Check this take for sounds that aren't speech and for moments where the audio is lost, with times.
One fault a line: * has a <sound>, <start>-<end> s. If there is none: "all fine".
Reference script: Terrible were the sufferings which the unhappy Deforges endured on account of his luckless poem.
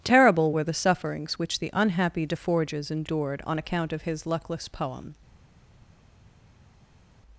all fine